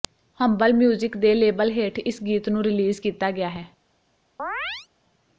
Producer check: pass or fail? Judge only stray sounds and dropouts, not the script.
fail